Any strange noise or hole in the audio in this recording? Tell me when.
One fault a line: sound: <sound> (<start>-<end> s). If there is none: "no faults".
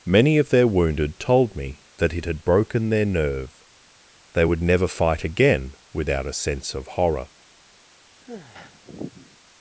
sound: sigh (8.2-9.4 s)